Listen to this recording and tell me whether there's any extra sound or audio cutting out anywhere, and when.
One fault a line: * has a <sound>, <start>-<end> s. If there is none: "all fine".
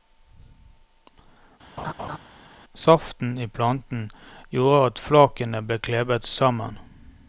* has a laugh, 1.8-2.2 s